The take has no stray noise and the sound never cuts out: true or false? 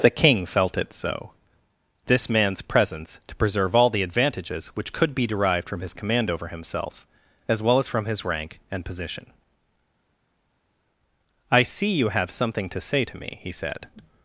true